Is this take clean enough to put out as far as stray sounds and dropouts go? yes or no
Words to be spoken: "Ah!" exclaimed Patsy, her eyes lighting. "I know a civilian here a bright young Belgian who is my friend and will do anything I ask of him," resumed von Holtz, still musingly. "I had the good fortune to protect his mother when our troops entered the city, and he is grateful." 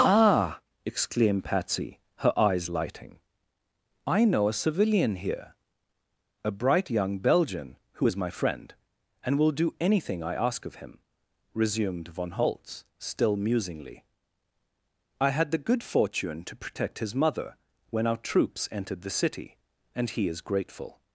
yes